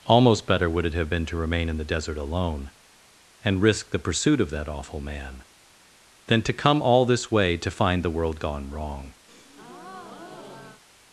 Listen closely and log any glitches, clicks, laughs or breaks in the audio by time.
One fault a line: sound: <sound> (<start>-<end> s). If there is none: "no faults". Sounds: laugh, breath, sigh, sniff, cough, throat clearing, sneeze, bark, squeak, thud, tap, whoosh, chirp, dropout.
sound: breath (9.3-10.8 s)